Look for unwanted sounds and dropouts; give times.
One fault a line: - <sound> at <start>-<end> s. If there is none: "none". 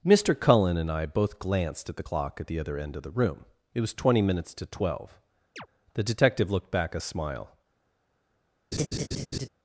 - chirp at 5.6-5.7 s
- laugh at 8.7-9.5 s